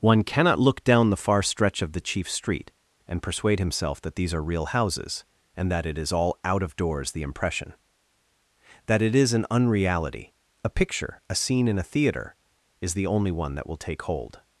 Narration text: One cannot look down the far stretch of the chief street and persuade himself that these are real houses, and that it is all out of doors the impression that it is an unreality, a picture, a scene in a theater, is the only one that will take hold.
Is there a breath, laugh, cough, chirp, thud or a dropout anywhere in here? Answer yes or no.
no